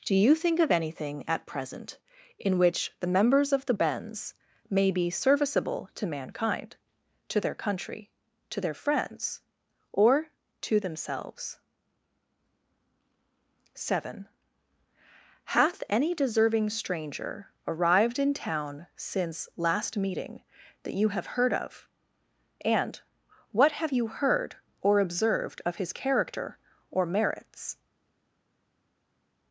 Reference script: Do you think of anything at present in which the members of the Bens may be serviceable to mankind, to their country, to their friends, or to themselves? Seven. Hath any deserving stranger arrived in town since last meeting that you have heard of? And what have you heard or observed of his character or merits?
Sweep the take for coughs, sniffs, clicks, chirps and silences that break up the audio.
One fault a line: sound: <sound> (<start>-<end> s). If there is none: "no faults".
no faults